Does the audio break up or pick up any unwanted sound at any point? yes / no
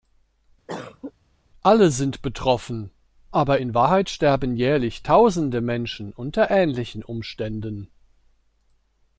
yes